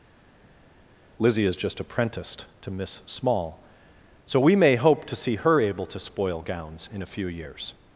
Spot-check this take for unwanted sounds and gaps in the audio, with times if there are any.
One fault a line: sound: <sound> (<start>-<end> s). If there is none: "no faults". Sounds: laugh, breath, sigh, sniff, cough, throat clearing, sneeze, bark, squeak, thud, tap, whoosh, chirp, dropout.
no faults